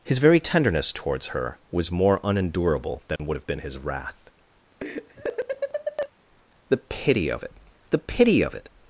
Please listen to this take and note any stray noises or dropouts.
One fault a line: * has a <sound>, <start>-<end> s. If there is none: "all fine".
* has a dropout, 3.2-3.2 s
* has a laugh, 4.8-6.1 s